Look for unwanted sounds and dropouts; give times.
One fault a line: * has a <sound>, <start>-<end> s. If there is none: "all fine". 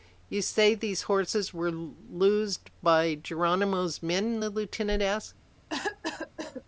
* has a cough, 5.7-6.6 s